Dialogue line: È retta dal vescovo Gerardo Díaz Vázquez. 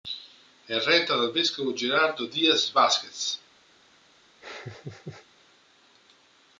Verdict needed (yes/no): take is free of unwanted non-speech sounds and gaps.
no